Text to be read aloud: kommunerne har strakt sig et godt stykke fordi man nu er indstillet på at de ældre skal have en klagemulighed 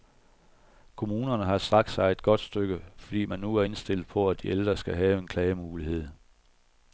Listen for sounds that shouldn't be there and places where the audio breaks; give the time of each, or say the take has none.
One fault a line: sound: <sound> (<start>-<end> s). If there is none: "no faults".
no faults